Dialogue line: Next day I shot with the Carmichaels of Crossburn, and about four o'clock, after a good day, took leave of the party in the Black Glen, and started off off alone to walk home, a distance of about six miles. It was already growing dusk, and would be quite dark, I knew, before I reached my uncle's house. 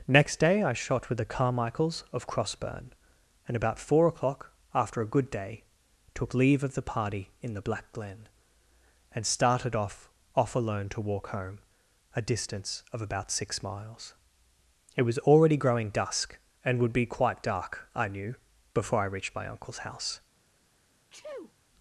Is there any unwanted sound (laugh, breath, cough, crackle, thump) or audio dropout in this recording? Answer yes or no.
yes